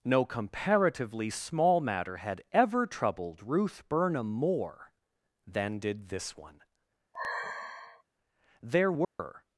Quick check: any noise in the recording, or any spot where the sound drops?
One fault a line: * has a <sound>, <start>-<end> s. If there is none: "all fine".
* has a sigh, 7.1-8.0 s
* has a dropout, 9.0-9.2 s